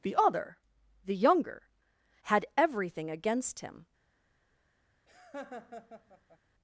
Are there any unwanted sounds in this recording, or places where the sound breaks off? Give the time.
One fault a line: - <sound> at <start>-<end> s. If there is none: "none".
- laugh at 5.1-6.4 s